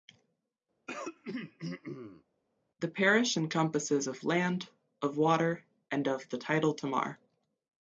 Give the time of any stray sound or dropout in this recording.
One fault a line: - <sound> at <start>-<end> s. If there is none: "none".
- throat clearing at 0.9-2.2 s